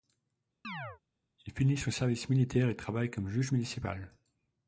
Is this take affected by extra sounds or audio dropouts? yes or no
yes